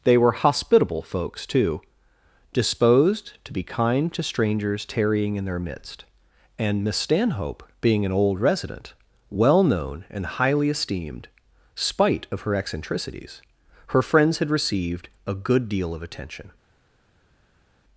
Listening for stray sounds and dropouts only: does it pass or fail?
pass